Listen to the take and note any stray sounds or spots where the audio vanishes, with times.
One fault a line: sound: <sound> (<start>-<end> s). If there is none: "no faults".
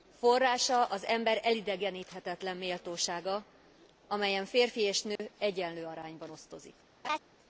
sound: dropout (5.2-5.2 s)
sound: laugh (7.0-7.2 s)